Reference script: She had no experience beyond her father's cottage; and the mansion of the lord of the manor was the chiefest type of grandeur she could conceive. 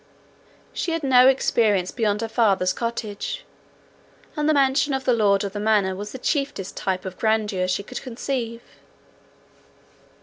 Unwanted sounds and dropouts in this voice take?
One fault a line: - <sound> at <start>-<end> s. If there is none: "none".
none